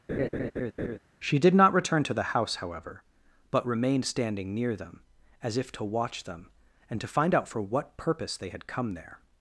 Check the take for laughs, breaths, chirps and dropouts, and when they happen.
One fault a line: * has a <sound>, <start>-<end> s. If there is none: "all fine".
* has a laugh, 0.1-1.0 s